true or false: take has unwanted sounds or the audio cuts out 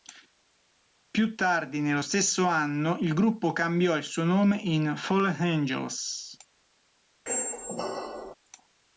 true